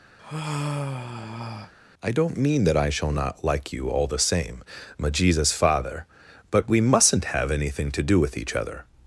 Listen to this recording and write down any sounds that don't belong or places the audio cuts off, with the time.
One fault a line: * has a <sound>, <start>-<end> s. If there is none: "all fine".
* has a sigh, 0.2-1.7 s